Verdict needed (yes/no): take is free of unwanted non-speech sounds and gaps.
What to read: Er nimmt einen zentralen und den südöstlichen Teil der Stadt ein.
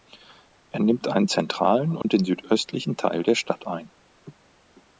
no